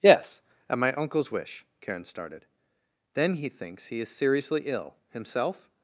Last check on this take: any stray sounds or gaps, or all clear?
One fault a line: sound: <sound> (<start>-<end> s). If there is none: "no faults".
no faults